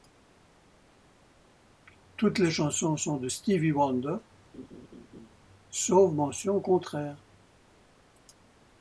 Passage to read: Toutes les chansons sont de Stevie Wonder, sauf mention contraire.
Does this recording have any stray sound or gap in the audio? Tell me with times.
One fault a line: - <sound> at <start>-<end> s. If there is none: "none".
- laugh at 4.5-5.3 s